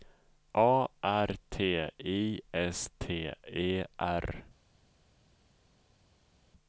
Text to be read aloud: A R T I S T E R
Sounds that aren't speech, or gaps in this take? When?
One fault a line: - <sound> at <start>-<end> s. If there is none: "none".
none